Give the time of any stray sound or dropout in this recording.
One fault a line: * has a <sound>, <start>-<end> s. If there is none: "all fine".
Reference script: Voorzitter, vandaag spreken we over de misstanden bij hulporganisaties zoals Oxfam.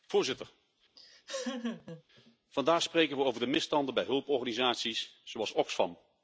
* has a laugh, 1.0-2.0 s